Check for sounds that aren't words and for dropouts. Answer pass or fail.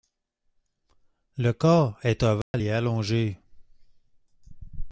fail